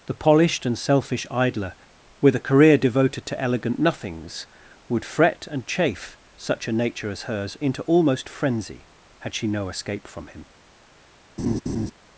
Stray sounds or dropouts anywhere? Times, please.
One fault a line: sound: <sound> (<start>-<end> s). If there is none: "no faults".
sound: laugh (11.4-11.9 s)